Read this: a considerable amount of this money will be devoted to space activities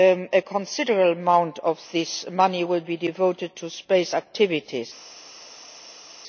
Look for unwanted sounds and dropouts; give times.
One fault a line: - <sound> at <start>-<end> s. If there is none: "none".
none